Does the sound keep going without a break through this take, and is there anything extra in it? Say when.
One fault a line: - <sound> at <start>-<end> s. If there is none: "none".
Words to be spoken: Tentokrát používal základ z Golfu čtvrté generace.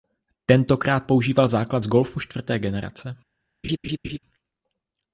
- laugh at 3.6-4.2 s